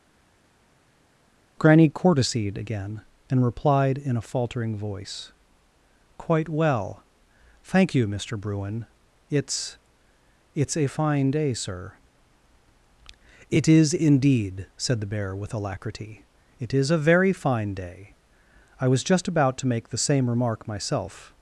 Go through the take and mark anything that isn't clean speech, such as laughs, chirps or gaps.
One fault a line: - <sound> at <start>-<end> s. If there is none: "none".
none